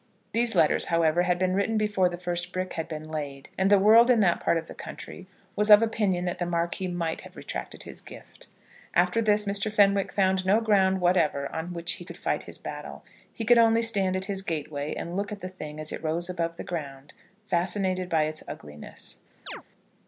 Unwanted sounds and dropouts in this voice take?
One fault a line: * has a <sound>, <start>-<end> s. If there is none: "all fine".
* has a chirp, 19.5-19.6 s